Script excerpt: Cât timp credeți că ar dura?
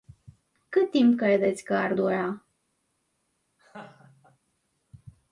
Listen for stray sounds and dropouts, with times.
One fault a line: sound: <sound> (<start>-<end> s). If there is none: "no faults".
sound: laugh (3.6-4.4 s)